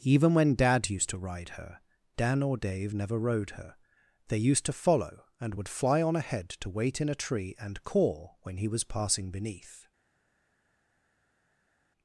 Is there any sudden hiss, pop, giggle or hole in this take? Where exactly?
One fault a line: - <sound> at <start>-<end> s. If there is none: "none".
none